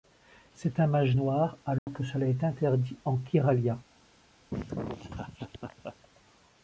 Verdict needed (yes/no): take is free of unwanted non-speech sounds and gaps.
no